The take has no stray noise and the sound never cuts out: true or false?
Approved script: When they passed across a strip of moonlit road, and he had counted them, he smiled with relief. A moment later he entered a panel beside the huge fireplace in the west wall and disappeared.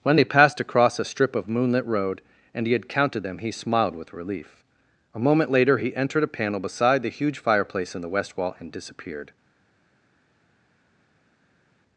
true